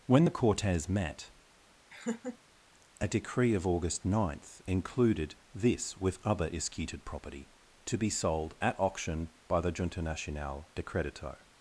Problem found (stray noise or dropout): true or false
true